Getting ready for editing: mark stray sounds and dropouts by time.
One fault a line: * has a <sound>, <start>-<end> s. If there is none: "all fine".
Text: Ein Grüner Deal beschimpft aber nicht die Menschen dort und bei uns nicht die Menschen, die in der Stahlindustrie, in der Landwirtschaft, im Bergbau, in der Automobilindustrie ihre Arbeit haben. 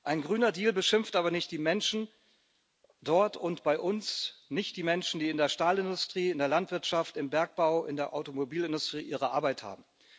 all fine